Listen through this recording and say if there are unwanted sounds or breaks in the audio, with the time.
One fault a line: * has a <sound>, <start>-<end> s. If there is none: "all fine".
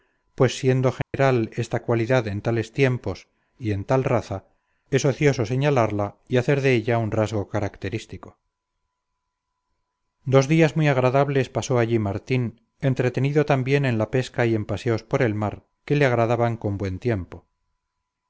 * has a dropout, 1.0-1.1 s